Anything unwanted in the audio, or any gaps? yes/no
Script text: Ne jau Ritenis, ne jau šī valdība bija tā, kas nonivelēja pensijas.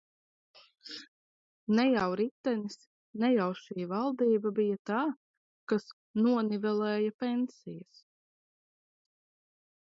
no